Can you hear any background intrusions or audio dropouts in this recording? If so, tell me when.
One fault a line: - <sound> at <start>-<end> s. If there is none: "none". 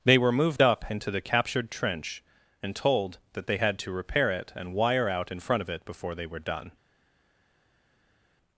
none